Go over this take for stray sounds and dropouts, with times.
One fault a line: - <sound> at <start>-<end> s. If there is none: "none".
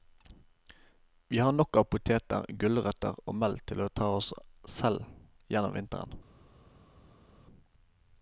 none